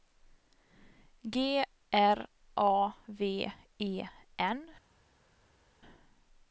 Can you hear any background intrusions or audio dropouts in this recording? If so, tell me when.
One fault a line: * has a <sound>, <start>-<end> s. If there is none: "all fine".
all fine